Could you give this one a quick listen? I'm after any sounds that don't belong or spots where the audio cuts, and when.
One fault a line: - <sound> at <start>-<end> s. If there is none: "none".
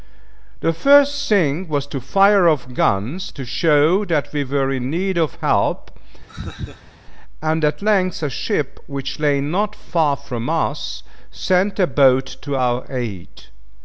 - laugh at 6.3-7.0 s